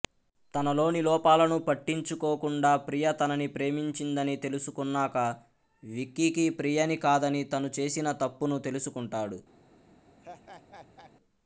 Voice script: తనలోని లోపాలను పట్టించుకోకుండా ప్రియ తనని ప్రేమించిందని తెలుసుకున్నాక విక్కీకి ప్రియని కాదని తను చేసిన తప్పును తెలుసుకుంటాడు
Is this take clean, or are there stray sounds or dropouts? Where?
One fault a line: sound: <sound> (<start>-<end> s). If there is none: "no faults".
sound: laugh (10.2-11.1 s)